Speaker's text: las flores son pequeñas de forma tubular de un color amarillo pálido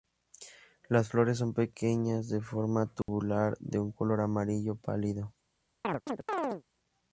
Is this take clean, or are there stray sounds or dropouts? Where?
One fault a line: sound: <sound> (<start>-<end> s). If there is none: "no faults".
sound: dropout (3.0-3.1 s)
sound: chirp (5.8-6.6 s)